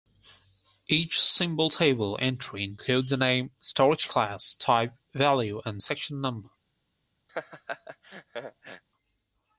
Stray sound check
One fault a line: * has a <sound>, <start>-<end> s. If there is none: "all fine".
* has a laugh, 7.3-8.8 s